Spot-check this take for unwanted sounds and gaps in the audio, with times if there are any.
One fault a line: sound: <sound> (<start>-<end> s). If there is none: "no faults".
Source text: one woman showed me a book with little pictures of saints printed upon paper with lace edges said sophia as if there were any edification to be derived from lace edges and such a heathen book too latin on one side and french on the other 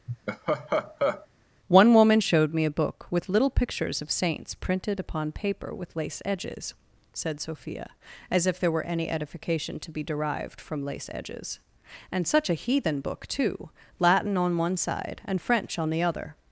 sound: laugh (0.1-1.3 s)